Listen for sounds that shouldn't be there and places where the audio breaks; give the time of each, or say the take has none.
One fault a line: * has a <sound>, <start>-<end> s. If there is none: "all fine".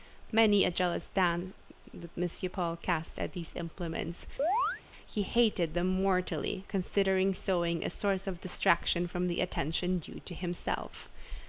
* has a chirp, 4.4-4.8 s